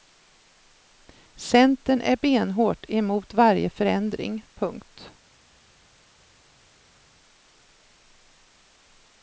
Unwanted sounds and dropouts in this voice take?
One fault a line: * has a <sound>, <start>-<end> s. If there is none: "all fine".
all fine